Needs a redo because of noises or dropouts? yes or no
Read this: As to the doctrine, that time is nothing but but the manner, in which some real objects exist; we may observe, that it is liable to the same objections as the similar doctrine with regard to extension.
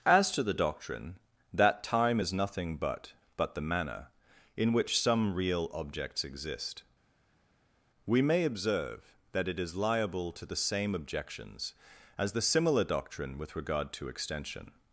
no